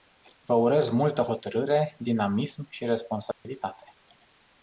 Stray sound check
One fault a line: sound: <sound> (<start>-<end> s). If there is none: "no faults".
sound: dropout (3.3-3.4 s)